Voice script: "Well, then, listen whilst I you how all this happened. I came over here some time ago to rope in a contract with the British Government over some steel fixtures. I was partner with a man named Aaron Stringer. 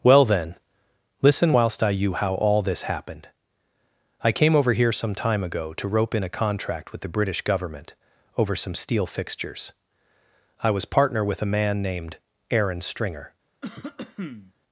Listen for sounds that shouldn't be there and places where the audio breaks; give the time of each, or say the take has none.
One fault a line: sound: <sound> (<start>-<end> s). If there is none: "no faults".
sound: cough (13.6-14.5 s)